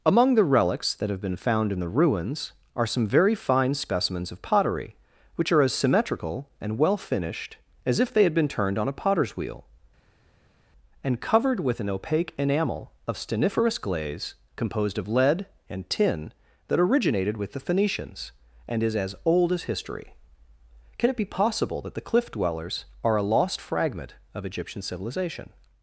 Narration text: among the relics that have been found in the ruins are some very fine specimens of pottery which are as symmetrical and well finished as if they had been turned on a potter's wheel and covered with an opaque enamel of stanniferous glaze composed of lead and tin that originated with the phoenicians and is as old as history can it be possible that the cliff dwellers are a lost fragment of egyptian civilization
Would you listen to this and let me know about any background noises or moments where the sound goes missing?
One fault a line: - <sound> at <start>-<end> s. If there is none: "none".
none